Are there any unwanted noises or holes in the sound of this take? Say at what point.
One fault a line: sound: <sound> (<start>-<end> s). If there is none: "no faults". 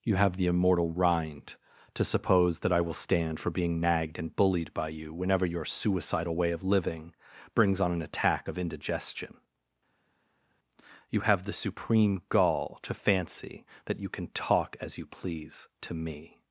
no faults